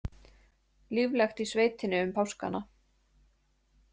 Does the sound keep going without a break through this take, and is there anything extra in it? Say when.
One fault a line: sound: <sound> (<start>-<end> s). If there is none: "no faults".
no faults